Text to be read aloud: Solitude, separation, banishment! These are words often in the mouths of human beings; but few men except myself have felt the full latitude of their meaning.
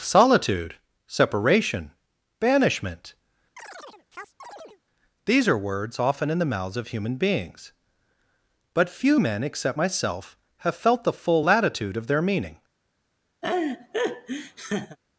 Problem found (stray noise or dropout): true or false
true